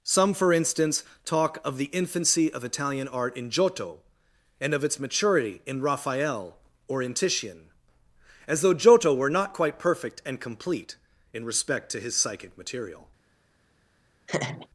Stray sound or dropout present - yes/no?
yes